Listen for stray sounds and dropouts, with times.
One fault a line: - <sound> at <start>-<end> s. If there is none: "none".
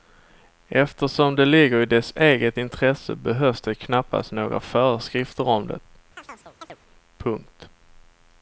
- chirp at 6.2-6.8 s